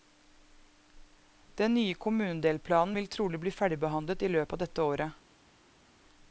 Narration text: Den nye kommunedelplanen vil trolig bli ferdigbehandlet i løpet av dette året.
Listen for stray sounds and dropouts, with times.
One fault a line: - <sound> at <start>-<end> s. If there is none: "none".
none